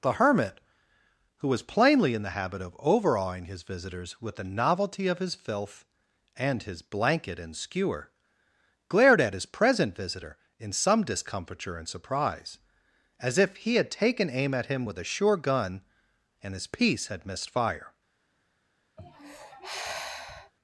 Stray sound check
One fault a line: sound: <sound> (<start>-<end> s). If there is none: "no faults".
sound: sigh (19.0-20.5 s)